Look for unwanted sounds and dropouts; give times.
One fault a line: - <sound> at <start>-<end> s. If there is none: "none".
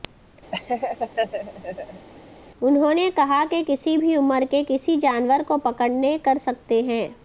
- laugh at 0.5-2.1 s